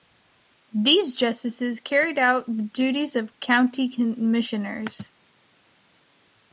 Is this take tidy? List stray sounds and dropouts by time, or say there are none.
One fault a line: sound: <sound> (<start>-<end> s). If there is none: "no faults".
no faults